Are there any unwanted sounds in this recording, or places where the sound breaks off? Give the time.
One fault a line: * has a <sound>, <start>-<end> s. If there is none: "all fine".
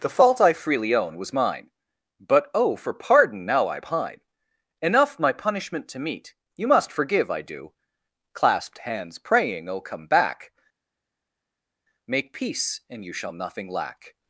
all fine